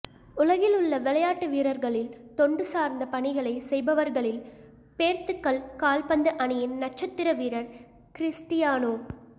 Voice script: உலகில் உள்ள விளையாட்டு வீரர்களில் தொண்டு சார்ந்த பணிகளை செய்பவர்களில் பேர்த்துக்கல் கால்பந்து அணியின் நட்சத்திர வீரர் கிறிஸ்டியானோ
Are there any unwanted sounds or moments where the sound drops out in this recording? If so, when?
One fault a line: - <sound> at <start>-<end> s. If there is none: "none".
none